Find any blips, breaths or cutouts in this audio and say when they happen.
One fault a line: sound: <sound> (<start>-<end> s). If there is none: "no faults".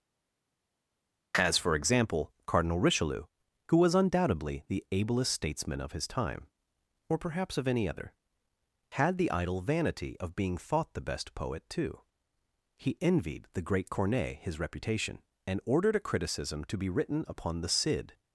no faults